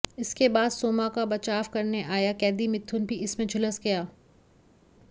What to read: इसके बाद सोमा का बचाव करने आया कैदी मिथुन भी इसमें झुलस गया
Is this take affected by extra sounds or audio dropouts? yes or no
no